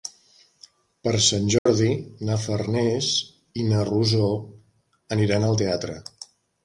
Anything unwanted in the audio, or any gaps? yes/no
yes